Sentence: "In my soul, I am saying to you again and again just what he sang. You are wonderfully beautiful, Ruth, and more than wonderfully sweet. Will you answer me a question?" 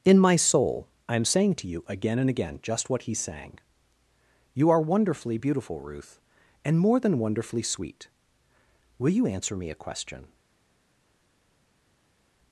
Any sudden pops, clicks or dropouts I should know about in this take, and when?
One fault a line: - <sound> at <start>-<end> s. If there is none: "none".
none